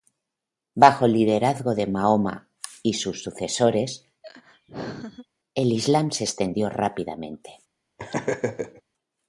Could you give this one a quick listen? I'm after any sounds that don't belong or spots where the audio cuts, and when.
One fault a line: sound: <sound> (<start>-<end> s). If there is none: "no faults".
sound: laugh (4.2-5.3 s)
sound: laugh (8.0-8.8 s)